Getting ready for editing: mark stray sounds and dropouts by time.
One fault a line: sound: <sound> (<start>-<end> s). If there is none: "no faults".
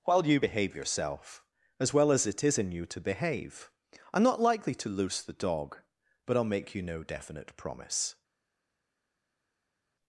no faults